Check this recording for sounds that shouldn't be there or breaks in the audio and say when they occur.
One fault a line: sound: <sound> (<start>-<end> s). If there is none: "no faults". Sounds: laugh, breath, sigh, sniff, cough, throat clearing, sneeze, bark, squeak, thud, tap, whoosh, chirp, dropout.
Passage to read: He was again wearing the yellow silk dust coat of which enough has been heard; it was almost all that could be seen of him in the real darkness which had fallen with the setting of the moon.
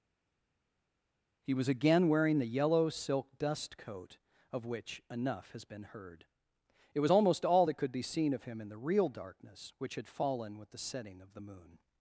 no faults